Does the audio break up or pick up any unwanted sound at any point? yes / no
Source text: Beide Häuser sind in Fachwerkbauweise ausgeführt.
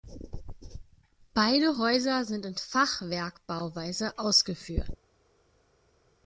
no